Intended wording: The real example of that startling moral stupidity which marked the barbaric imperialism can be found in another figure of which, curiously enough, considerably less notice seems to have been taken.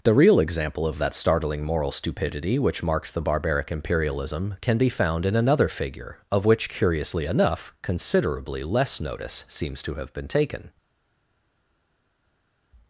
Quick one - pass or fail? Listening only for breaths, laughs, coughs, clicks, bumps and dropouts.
pass